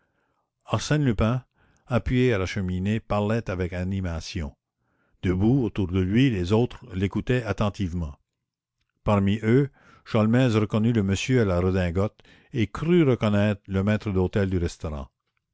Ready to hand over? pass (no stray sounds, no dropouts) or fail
pass